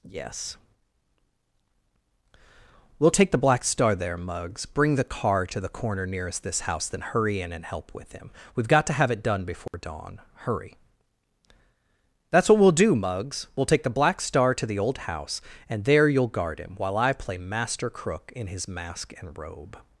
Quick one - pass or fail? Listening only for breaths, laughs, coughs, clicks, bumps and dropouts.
fail